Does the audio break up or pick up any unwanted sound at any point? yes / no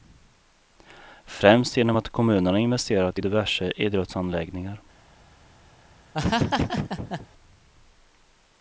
yes